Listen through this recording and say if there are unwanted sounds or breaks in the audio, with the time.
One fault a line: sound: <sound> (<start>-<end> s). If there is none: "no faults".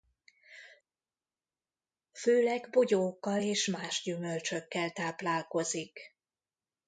no faults